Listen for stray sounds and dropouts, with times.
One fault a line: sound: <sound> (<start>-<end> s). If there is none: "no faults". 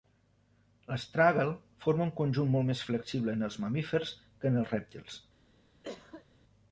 sound: cough (5.8-6.3 s)